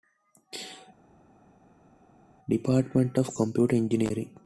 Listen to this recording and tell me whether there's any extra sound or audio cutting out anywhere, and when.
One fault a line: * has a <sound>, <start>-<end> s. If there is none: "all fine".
all fine